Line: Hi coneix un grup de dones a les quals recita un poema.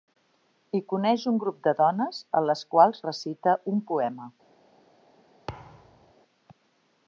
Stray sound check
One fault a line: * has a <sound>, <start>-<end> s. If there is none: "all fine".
* has a thud, 5.5-6.1 s